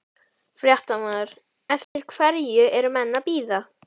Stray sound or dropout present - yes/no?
yes